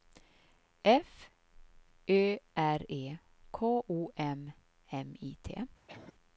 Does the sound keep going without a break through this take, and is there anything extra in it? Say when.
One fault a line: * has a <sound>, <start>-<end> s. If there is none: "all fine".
* has a cough, 5.9-6.1 s